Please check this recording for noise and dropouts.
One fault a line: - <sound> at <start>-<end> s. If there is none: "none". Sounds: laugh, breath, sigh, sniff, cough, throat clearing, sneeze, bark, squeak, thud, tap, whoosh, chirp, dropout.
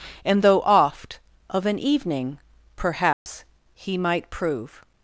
- dropout at 3.1-3.3 s